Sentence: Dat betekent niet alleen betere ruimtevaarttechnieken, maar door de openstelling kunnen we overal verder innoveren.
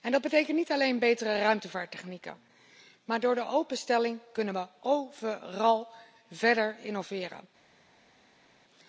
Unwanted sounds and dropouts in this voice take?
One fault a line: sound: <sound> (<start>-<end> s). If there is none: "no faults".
no faults